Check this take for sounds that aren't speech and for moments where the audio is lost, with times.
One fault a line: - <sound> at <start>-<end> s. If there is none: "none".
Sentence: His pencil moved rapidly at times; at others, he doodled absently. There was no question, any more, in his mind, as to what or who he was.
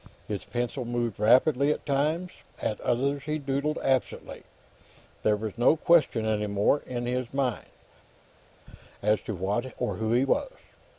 none